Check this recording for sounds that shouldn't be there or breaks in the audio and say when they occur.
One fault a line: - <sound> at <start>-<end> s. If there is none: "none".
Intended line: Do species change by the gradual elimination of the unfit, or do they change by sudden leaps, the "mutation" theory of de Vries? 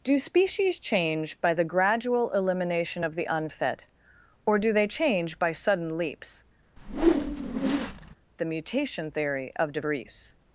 - whoosh at 6.8-8.2 s